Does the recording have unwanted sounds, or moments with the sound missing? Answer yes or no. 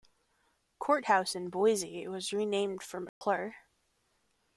yes